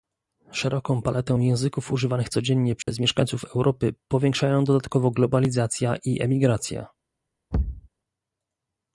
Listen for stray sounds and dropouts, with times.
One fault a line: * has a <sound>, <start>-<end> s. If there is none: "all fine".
* has a dropout, 2.8-2.9 s
* has a thud, 7.5-7.9 s